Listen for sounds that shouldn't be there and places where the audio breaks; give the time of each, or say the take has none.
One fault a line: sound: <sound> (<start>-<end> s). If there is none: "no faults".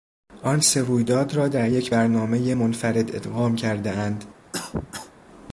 sound: cough (4.5-5.1 s)